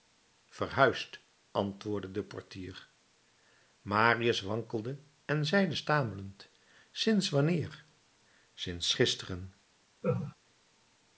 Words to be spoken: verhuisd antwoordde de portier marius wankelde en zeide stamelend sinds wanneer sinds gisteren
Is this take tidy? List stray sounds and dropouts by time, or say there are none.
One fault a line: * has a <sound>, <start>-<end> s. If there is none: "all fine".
* has a laugh, 10.0-10.4 s